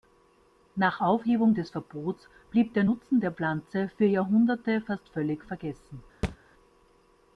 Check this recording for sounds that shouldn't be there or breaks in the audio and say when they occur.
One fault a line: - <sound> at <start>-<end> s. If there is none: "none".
- thud at 6.2-6.4 s